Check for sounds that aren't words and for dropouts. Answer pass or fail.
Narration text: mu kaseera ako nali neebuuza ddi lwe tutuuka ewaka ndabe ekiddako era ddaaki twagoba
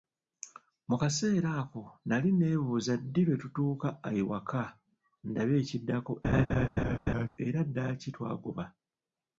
fail